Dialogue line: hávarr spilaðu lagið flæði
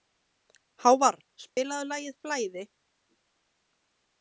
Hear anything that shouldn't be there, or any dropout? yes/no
yes